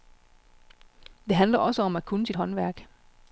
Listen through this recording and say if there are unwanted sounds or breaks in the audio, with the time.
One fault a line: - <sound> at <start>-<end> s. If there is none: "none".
none